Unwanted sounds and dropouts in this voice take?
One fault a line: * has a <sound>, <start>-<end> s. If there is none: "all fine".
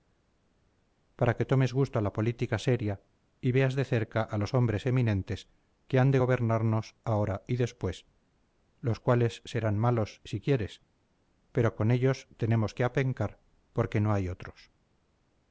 all fine